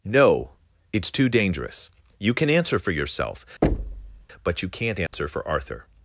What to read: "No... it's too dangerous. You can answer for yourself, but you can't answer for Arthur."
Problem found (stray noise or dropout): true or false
true